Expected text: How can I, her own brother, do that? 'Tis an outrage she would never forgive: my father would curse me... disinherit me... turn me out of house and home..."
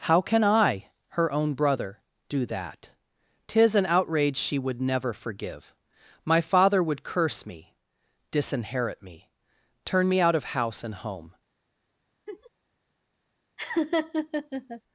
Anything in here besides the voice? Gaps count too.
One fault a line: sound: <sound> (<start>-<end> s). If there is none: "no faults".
sound: laugh (12.3-12.5 s)
sound: laugh (13.6-14.8 s)